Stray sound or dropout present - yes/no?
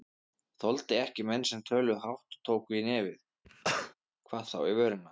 yes